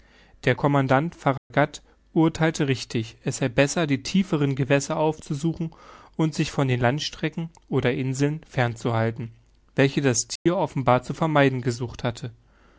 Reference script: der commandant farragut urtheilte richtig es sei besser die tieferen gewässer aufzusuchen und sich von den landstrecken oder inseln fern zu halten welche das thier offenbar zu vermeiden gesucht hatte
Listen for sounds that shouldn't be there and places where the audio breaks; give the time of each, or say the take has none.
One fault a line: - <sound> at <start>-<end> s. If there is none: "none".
- dropout at 1.4-1.5 s
- dropout at 10.4-10.5 s